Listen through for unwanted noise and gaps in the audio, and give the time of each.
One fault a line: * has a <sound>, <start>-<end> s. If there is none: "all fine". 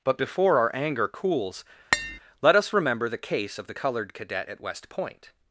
* has a tap, 1.9-2.2 s